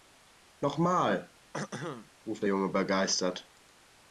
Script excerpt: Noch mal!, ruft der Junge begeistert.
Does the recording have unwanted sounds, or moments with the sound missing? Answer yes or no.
yes